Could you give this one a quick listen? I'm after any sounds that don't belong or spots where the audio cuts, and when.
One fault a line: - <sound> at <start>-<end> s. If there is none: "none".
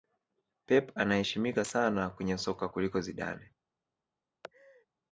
- laugh at 4.4-4.9 s